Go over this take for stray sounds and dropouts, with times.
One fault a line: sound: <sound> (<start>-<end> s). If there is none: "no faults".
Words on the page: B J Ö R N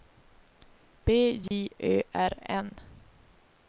sound: dropout (1.5-1.5 s)